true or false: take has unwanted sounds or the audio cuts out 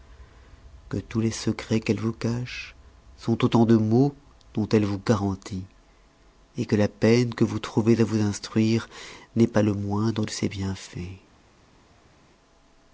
false